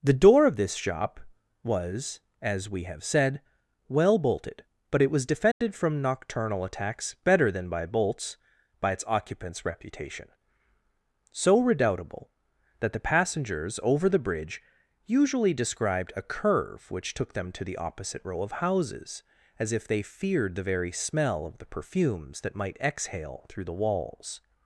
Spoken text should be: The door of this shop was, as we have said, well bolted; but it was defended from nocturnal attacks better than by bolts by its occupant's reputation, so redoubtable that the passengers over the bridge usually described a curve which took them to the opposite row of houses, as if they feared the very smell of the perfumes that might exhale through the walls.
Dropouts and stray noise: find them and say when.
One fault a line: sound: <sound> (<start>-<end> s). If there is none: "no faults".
sound: dropout (5.5-5.6 s)